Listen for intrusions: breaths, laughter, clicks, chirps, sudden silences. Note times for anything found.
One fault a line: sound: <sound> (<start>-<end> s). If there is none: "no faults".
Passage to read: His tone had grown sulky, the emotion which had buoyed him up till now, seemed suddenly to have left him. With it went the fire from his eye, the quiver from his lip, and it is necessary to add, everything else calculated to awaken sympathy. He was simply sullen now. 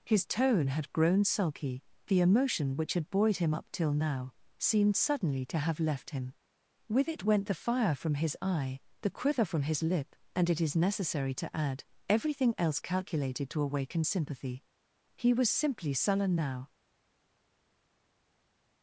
no faults